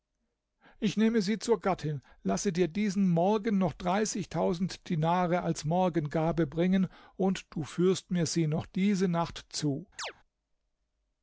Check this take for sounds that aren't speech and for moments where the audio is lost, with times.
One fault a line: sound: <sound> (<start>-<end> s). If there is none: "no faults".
sound: chirp (10.0-10.1 s)